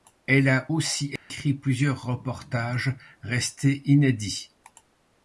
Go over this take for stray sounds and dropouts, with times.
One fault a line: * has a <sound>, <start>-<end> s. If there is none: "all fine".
* has a dropout, 1.2-1.3 s